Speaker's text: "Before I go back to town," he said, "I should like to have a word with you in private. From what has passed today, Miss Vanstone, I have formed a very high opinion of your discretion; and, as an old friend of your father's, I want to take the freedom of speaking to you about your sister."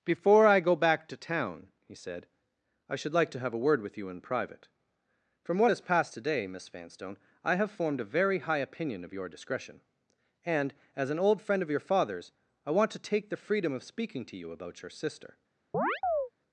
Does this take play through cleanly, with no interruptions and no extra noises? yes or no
no